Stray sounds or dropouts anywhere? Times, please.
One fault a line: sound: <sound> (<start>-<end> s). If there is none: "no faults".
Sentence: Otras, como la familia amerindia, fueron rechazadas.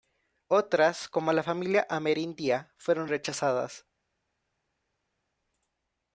no faults